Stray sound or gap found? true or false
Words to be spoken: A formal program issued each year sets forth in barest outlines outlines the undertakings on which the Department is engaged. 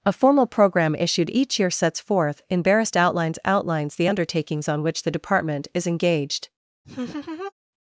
true